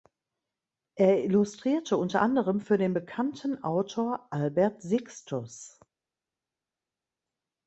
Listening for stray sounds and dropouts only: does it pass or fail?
pass